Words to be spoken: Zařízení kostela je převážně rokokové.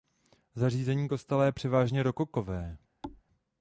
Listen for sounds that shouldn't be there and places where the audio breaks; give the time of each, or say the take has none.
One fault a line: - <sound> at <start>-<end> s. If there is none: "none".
- thud at 3.0-3.2 s